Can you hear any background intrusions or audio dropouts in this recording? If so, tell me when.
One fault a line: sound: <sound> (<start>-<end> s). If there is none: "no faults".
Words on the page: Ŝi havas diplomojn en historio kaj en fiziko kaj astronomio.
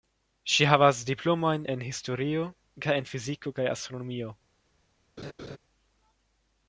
sound: laugh (5.2-5.6 s)